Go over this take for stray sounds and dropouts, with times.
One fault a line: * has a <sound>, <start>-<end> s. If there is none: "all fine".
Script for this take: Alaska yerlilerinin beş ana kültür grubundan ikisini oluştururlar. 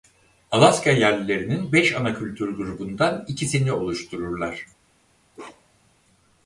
* has a bark, 5.3-5.9 s